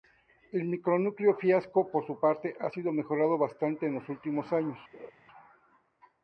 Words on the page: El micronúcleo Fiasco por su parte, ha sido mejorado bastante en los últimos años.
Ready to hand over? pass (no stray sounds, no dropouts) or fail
fail